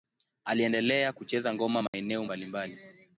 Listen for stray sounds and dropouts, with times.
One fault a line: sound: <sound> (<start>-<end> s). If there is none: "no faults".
sound: dropout (1.9-1.9 s)